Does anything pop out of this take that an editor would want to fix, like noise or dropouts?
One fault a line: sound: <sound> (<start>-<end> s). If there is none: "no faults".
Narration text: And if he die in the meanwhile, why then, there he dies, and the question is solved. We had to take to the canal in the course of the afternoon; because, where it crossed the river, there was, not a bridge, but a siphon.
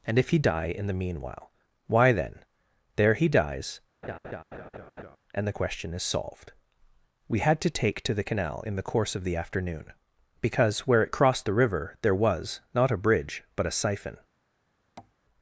sound: laugh (4.0-5.2 s)
sound: tap (15.0-15.1 s)